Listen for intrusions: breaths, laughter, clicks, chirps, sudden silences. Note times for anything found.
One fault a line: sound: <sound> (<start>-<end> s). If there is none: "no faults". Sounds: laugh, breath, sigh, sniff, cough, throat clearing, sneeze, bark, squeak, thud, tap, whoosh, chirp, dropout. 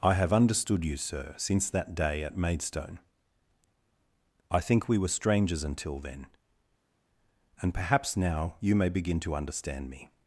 no faults